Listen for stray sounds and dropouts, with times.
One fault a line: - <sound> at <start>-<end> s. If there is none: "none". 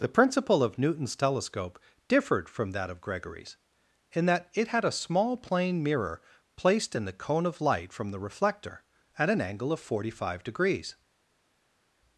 none